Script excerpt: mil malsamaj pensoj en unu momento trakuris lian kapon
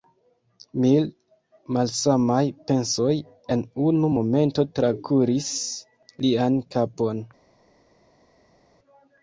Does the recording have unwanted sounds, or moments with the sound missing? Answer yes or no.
no